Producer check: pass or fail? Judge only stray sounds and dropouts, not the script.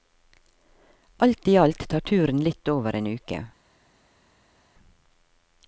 pass